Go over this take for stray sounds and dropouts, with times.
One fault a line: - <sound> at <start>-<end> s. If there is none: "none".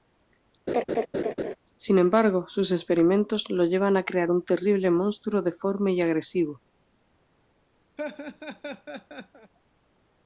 - laugh at 0.7-1.6 s
- laugh at 8.0-9.5 s